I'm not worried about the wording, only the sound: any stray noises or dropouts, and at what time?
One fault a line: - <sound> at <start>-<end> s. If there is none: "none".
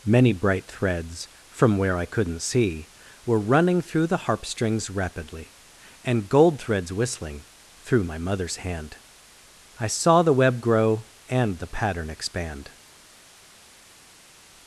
none